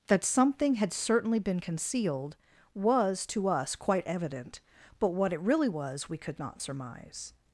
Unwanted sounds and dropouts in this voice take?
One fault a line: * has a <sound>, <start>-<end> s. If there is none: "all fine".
all fine